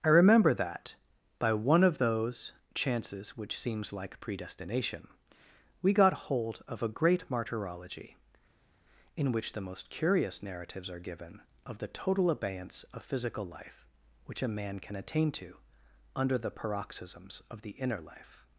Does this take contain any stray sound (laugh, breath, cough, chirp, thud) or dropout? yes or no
no